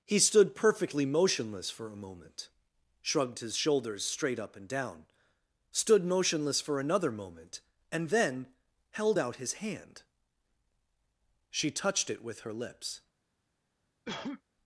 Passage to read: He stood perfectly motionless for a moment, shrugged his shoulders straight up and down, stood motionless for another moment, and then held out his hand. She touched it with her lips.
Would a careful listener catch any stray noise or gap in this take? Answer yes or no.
yes